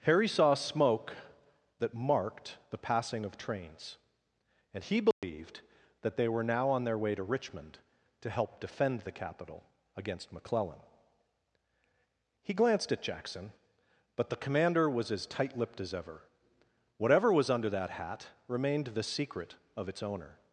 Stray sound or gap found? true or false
true